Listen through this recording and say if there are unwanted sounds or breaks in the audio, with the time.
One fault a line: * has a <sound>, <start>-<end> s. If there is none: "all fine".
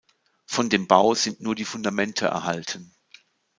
all fine